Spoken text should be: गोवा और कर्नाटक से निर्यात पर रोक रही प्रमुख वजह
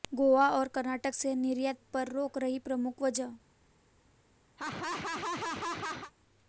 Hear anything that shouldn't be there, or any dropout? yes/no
yes